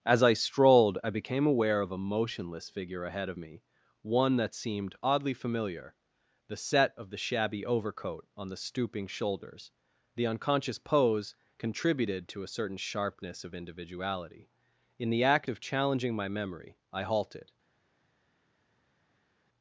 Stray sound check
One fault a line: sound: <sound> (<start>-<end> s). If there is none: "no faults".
no faults